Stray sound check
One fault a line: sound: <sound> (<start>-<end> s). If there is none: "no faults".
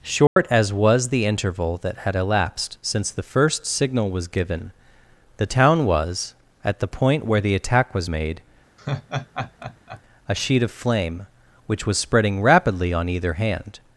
sound: dropout (0.3-0.4 s)
sound: laugh (8.8-10.0 s)